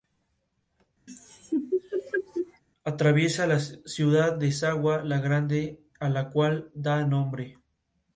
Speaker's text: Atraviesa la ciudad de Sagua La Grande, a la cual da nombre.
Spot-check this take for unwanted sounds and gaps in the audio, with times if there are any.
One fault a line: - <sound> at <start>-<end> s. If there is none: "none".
- laugh at 1.1-2.6 s